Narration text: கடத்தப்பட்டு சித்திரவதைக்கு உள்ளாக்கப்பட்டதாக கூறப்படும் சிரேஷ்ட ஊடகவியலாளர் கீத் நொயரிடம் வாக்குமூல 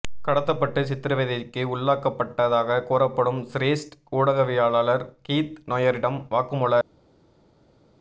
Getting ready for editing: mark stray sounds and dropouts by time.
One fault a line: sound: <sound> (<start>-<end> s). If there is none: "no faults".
no faults